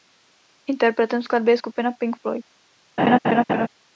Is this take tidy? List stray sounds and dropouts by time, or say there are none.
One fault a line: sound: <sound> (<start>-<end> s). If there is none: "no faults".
sound: laugh (3.0-3.7 s)